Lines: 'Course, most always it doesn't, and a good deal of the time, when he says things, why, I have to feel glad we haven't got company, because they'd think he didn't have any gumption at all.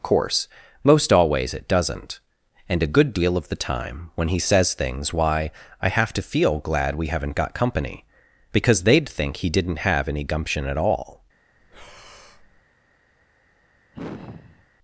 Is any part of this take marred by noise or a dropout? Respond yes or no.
yes